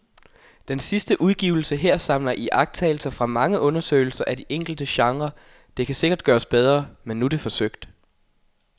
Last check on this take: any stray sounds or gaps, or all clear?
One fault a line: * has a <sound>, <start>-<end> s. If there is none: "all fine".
all fine